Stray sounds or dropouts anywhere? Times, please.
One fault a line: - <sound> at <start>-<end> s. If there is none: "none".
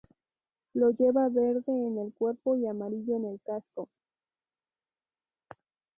none